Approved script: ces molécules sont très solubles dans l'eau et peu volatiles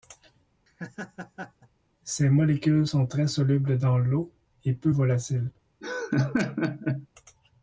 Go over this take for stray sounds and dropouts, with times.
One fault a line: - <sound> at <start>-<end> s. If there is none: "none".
- laugh at 0.7-1.7 s
- laugh at 5.8-7.1 s